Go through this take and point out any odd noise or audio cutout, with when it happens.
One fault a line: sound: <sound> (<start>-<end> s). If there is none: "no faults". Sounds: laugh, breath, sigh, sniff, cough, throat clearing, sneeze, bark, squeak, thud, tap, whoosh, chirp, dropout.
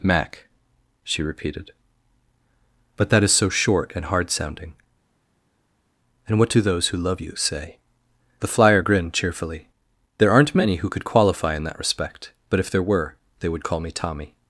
no faults